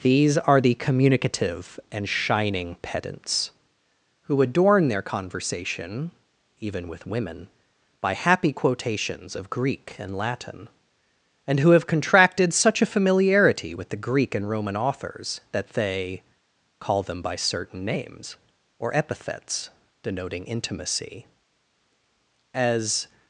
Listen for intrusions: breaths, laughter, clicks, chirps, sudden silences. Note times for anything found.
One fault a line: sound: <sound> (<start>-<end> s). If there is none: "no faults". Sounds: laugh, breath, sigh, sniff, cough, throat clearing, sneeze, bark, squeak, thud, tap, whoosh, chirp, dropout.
no faults